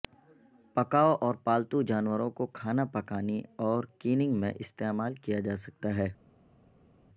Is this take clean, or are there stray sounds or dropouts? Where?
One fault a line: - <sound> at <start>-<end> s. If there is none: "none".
none